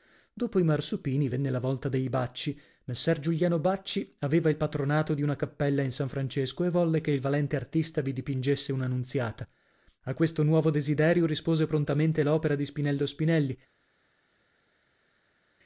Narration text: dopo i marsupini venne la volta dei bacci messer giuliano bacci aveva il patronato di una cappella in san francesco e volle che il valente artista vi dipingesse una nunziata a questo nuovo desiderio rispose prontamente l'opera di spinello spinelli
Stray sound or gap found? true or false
false